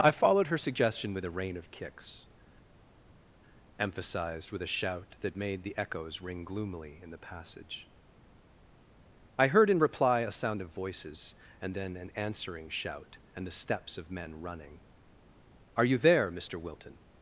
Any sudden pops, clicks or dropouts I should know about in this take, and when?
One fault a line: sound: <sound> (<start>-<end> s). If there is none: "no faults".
no faults